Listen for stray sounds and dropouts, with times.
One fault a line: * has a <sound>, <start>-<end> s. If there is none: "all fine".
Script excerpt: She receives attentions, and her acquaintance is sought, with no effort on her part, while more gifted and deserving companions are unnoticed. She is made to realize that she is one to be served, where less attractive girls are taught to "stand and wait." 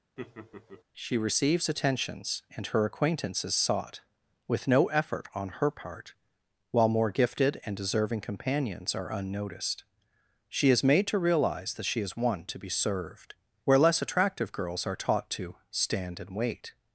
* has a laugh, 0.2-0.8 s